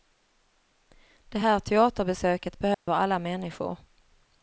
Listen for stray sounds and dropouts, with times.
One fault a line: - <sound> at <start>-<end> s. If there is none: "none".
- dropout at 2.7-2.9 s